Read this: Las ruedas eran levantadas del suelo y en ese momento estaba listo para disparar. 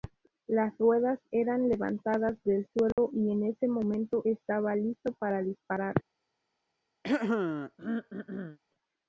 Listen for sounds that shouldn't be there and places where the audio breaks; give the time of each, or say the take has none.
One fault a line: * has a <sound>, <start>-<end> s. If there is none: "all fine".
* has a dropout, 2.9-3.0 s
* has a throat clearing, 7.0-8.6 s